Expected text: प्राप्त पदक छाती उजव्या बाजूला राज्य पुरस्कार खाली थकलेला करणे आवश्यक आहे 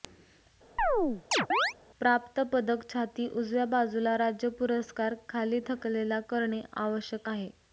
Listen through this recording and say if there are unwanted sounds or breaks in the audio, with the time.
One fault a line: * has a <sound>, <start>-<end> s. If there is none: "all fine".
* has a chirp, 0.8-1.7 s